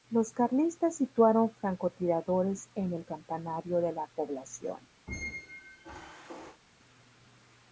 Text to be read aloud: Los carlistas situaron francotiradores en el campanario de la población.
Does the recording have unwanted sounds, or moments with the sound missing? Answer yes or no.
yes